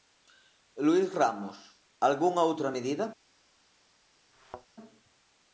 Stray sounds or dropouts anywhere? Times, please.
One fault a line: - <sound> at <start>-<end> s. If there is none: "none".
- thud at 4.3-4.7 s